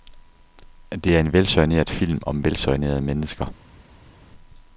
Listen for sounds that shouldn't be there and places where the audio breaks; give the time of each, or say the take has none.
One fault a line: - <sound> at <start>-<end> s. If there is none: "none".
none